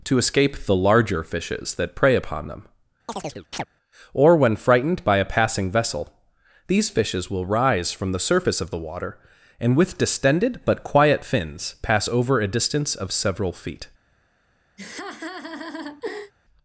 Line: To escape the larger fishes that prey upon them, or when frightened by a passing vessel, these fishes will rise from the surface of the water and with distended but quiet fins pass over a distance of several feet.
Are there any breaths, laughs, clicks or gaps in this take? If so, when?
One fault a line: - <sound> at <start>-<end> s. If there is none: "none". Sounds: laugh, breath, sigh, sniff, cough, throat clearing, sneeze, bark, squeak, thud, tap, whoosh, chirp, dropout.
- chirp at 3.1-3.7 s
- laugh at 14.8-16.3 s